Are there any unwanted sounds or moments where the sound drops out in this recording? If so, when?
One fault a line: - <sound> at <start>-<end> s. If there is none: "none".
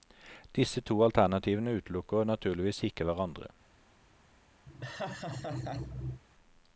- laugh at 4.7-6.2 s